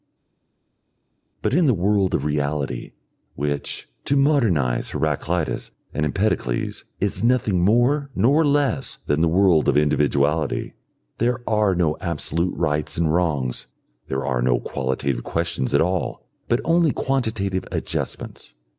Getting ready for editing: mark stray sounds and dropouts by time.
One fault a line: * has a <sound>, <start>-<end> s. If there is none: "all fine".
all fine